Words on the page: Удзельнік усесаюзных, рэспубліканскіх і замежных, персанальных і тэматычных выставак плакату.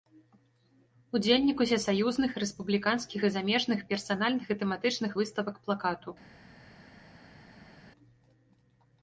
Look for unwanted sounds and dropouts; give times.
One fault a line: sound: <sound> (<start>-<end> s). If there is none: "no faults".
no faults